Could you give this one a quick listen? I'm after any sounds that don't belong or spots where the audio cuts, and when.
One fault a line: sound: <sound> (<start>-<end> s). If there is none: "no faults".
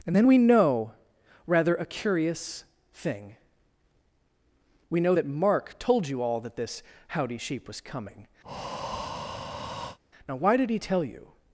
sound: breath (8.4-10.0 s)